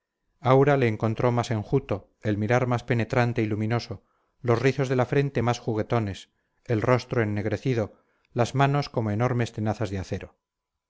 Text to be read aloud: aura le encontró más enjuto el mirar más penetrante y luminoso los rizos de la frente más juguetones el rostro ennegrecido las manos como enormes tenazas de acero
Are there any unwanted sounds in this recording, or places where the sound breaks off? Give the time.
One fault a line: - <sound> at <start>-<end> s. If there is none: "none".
none